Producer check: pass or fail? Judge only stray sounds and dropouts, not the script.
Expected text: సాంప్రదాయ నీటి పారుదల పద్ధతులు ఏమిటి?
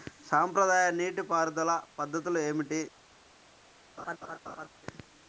fail